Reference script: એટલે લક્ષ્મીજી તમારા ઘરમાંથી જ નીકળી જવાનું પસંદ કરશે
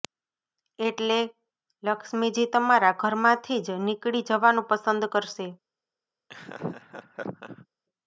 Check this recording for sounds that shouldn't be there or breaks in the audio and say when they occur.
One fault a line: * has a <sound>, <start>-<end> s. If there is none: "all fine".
* has a laugh, 6.3-7.7 s